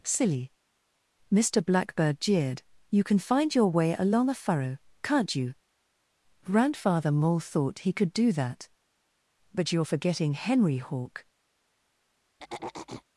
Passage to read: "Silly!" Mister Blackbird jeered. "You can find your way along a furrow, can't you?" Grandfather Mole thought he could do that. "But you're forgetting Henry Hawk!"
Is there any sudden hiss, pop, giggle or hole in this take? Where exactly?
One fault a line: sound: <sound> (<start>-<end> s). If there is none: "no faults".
sound: throat clearing (12.4-13.0 s)